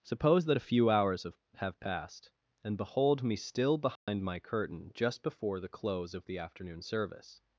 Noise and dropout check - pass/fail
fail